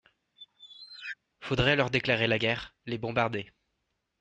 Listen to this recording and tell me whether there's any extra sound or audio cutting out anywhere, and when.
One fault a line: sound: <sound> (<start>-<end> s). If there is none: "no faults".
sound: squeak (0.4-1.2 s)